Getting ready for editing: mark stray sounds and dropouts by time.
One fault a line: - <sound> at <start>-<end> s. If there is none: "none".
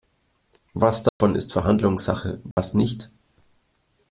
- dropout at 1.1-1.2 s
- dropout at 2.5-2.6 s